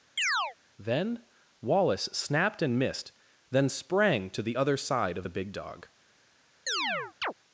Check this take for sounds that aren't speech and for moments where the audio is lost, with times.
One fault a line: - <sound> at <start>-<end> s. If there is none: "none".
- chirp at 0.2-0.6 s
- chirp at 6.7-7.3 s